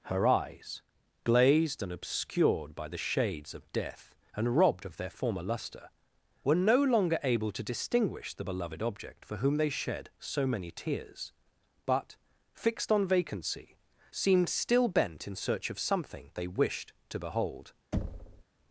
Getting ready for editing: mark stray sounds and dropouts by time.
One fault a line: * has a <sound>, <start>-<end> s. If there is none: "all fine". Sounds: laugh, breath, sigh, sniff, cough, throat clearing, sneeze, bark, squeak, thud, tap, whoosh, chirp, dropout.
* has a thud, 17.9-18.4 s